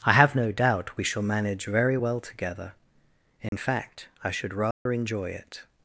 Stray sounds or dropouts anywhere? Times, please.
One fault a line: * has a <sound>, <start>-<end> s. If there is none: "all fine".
* has a dropout, 3.5-3.5 s
* has a dropout, 4.7-4.9 s